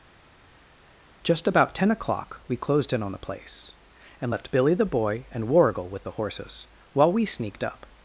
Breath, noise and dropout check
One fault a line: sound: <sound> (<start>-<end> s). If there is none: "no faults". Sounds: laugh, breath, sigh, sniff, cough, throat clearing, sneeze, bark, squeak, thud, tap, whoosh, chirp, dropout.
no faults